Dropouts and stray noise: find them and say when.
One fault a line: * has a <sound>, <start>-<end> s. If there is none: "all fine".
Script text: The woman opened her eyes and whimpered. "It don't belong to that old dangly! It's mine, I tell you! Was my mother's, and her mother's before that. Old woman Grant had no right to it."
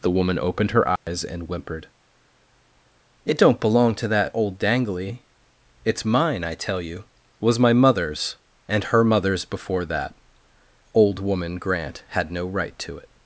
* has a dropout, 1.0-1.1 s